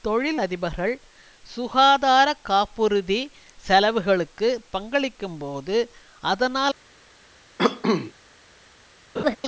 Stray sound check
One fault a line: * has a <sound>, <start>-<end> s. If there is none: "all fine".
* has a cough, 7.6-8.1 s
* has a laugh, 9.2-9.4 s